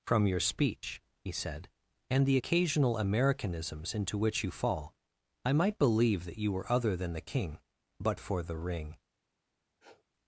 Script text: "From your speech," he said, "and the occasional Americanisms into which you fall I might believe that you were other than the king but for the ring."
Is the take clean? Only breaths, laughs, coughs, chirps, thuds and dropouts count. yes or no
no